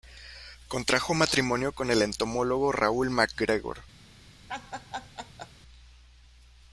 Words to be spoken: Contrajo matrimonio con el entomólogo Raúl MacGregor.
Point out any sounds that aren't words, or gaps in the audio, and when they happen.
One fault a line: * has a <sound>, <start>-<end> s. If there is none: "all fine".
* has a laugh, 4.5-5.5 s